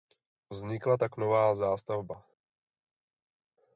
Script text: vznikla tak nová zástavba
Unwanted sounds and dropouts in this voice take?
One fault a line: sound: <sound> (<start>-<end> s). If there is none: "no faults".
no faults